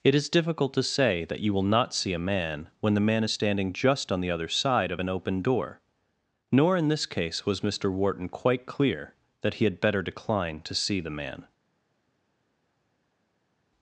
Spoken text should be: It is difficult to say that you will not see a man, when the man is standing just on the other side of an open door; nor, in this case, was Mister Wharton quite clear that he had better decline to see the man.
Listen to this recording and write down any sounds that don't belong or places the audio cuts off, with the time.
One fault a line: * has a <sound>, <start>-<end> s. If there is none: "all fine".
all fine